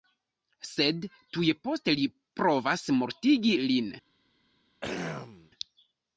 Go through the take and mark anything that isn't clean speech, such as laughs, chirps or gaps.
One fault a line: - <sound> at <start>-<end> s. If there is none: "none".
- throat clearing at 4.8-5.5 s